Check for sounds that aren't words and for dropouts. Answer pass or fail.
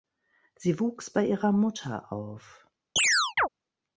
fail